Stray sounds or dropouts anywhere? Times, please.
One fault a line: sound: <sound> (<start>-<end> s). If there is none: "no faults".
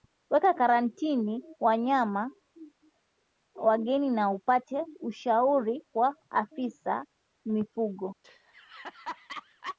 sound: laugh (8.2-9.8 s)